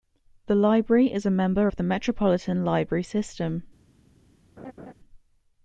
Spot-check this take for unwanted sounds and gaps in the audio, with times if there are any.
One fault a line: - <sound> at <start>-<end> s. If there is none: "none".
- laugh at 4.6-4.9 s